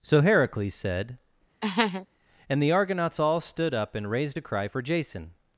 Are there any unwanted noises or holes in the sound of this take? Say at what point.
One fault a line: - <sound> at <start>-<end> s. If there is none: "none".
- laugh at 1.6-2.1 s